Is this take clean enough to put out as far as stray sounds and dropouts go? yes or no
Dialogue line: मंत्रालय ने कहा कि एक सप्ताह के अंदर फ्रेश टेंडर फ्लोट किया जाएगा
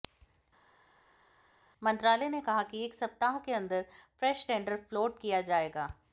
yes